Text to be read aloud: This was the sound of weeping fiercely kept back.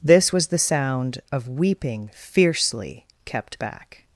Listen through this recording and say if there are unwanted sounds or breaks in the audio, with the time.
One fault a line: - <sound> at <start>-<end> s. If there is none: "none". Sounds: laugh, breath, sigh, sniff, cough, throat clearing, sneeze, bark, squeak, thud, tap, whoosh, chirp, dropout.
none